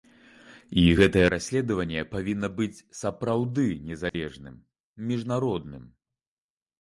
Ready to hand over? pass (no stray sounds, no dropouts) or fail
fail